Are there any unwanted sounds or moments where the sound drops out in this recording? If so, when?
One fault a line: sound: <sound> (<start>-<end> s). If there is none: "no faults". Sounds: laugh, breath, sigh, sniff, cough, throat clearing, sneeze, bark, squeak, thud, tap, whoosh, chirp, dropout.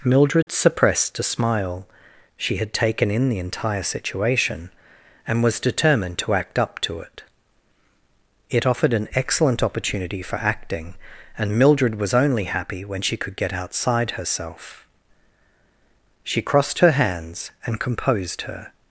sound: dropout (0.4-0.5 s)